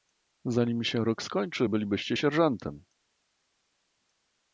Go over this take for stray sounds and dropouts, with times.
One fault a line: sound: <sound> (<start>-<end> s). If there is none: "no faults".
no faults